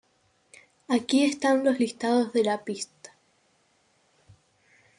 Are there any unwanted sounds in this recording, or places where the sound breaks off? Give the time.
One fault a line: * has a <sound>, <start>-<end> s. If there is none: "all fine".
all fine